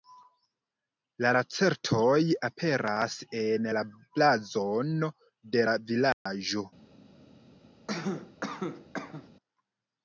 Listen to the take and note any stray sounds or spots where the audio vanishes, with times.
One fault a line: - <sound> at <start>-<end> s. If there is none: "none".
- dropout at 6.1-6.3 s
- cough at 7.9-9.3 s